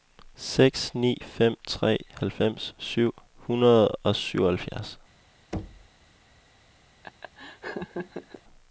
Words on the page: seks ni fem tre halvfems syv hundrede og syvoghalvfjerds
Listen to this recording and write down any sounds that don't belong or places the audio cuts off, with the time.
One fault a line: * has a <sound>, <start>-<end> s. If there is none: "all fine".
* has a thud, 5.5-5.9 s
* has a laugh, 7.0-8.4 s